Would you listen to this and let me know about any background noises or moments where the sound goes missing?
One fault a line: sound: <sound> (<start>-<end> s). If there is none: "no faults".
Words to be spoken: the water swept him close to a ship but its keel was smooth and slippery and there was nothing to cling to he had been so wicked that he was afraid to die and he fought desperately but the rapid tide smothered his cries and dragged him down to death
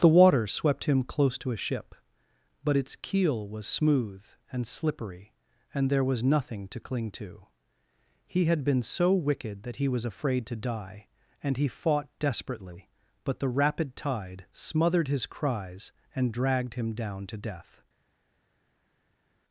no faults